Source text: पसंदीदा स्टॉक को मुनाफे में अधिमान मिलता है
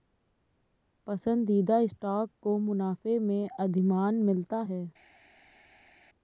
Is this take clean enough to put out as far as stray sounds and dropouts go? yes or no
yes